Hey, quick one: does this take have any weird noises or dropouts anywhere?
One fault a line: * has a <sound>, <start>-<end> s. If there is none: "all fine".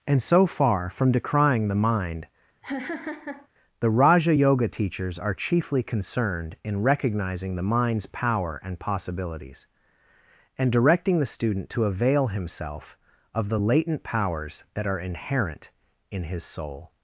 * has a laugh, 2.6-3.5 s